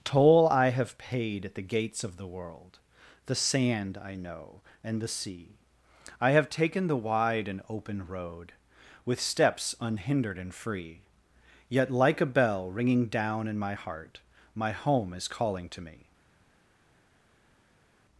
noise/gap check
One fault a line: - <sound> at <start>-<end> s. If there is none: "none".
none